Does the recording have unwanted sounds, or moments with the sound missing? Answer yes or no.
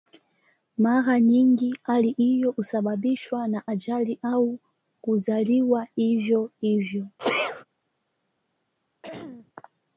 yes